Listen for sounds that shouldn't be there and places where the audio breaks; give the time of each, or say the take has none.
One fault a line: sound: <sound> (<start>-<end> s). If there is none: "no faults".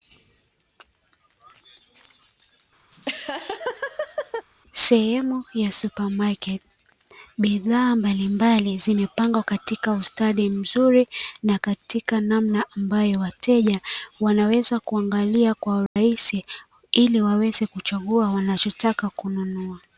sound: laugh (2.9-4.5 s)
sound: dropout (15.9-16.0 s)